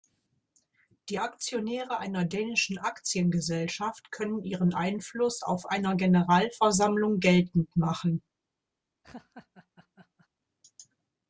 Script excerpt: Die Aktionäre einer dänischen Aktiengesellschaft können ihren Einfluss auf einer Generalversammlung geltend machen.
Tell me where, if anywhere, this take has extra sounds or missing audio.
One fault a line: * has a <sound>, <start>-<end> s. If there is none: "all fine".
* has a laugh, 9.0-10.3 s